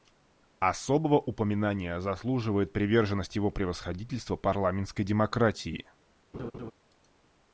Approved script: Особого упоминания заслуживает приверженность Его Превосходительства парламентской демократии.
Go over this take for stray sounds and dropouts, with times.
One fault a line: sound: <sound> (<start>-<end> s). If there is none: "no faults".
sound: laugh (6.3-6.7 s)